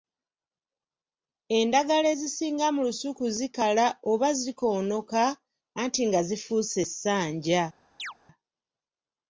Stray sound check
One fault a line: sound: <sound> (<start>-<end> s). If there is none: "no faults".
sound: chirp (8.0-8.1 s)